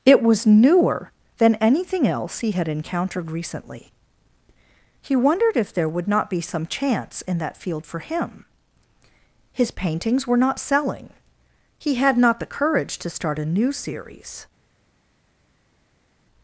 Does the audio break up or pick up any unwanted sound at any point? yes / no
no